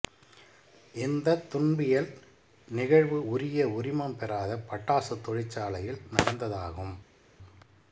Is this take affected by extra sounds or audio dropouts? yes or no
no